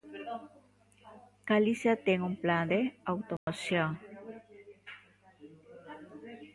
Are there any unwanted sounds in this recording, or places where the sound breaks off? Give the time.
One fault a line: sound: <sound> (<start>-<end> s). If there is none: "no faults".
sound: dropout (3.4-3.5 s)